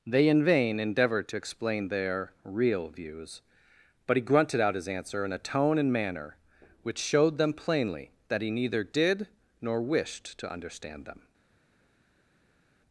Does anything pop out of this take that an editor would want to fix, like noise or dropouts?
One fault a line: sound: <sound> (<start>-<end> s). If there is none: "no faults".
no faults